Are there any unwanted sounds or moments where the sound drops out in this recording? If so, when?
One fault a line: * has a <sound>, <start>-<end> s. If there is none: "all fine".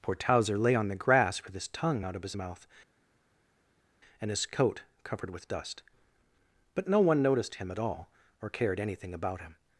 all fine